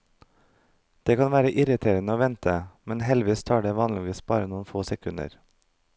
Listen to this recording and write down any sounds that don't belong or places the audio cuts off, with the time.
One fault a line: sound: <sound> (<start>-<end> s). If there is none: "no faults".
no faults